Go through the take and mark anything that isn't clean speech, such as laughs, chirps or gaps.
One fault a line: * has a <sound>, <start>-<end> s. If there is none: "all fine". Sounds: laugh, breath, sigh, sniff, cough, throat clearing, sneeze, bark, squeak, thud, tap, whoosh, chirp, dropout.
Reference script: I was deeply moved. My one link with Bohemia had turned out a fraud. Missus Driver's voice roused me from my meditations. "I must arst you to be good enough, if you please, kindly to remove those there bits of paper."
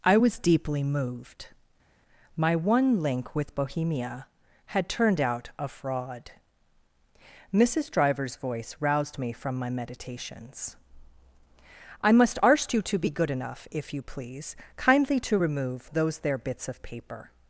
all fine